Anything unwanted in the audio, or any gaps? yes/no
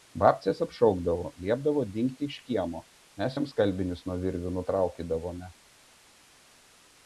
no